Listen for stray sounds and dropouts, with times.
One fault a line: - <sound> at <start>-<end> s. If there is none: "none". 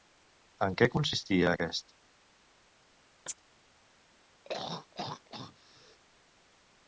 - chirp at 3.3-3.4 s
- throat clearing at 4.4-6.0 s